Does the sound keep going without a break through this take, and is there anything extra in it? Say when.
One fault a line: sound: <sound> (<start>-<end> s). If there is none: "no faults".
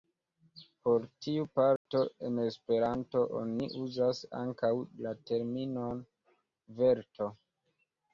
sound: dropout (1.8-1.9 s)